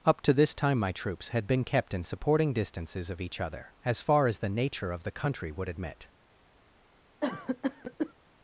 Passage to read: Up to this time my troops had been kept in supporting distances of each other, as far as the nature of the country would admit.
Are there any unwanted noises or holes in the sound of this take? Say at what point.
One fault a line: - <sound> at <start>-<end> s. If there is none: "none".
- cough at 7.2-8.1 s